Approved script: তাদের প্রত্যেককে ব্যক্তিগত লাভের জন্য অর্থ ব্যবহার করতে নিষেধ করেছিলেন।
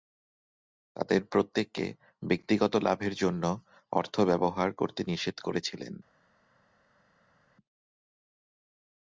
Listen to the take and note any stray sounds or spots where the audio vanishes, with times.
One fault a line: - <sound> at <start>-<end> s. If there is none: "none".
none